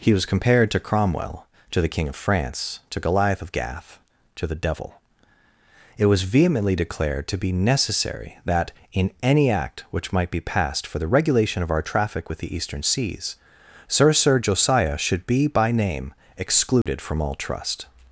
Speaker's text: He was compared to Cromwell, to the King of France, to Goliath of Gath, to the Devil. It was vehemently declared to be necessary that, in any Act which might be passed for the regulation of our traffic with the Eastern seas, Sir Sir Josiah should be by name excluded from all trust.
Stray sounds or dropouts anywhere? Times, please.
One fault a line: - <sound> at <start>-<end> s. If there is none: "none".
- dropout at 16.8-16.9 s